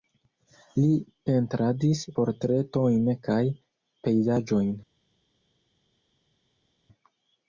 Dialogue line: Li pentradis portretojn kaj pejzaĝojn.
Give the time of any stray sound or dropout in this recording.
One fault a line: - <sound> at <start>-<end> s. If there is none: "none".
none